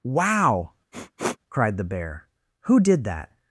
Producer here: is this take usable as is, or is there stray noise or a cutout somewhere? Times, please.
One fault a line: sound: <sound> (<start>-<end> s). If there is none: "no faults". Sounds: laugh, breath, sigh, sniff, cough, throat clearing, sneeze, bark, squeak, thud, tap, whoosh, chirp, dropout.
sound: sniff (0.9-1.4 s)